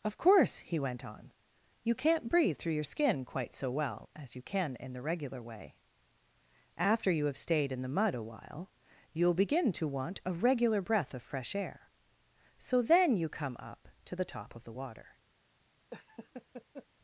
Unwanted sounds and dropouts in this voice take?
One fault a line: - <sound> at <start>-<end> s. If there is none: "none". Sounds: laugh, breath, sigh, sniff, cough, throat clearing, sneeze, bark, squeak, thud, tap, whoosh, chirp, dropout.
- laugh at 15.9-16.9 s